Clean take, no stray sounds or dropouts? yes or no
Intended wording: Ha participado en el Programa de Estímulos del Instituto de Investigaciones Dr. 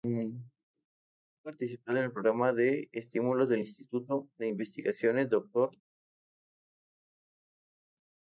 yes